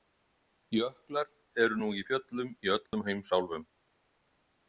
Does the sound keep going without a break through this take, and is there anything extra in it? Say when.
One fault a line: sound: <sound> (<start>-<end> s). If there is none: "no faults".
sound: dropout (2.9-2.9 s)